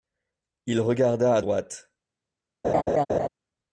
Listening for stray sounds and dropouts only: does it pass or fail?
fail